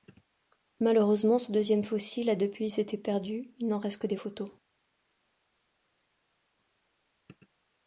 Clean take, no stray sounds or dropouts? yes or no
yes